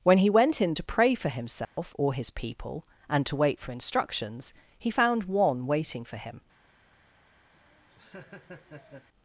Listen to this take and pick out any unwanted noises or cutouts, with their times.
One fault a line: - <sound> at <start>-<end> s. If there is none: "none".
- dropout at 1.6-1.8 s
- laugh at 7.5-9.1 s